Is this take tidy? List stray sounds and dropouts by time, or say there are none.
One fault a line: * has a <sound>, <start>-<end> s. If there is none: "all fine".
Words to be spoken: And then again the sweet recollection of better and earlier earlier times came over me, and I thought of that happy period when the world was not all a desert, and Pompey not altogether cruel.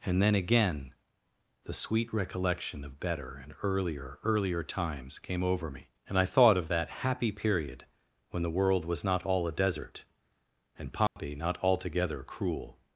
* has a dropout, 11.1-11.2 s